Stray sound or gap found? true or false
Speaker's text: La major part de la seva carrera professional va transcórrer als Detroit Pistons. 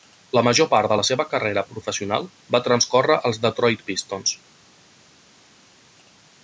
false